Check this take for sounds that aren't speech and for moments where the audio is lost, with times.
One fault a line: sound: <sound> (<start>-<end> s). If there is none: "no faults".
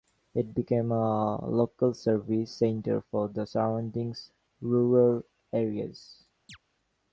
sound: chirp (6.5-6.6 s)